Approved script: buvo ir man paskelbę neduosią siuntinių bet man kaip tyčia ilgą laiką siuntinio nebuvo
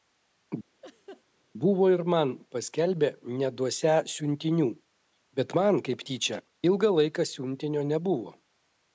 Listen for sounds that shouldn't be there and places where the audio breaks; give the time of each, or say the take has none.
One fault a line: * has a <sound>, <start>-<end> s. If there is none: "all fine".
* has a laugh, 0.8-1.2 s